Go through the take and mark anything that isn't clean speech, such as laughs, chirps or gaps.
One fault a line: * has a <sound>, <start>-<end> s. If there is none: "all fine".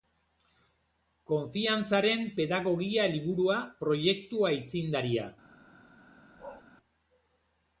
* has a bark, 6.4-6.6 s